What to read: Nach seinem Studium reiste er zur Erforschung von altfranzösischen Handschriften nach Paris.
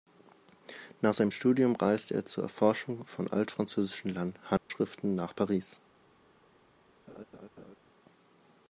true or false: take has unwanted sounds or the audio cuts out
true